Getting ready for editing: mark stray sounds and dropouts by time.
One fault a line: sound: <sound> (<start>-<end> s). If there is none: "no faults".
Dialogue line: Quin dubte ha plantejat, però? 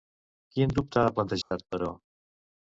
sound: dropout (1.4-1.5 s)